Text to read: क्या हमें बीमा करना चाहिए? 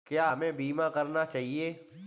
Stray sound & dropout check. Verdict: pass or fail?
pass